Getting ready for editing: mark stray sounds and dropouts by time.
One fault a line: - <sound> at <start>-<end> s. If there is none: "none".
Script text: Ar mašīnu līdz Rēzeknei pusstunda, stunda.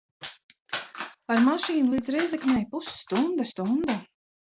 none